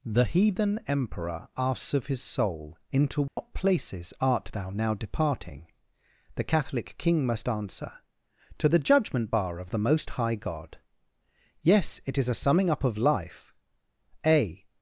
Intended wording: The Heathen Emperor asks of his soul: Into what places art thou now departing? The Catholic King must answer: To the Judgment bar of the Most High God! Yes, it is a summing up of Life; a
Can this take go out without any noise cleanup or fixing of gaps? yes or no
no